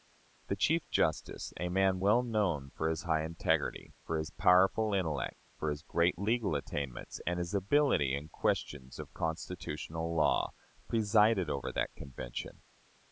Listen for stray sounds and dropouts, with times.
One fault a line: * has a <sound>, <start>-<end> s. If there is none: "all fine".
all fine